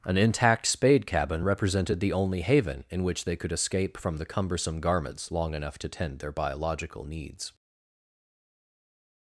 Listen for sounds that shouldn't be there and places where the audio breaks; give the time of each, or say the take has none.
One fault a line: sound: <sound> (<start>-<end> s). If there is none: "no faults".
no faults